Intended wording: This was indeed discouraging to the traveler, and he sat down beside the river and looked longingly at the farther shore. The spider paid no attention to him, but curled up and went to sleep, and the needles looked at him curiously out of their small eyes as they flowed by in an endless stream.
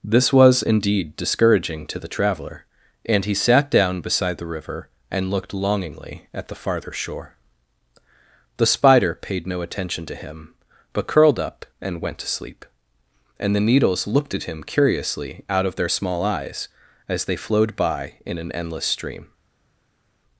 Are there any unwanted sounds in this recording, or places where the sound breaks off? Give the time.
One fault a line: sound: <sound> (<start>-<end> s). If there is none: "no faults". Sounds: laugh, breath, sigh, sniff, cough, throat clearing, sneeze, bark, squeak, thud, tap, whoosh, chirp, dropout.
no faults